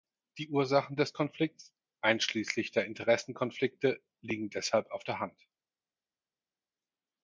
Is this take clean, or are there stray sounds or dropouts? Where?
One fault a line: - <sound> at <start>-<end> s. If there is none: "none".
none